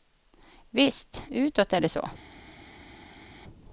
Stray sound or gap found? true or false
false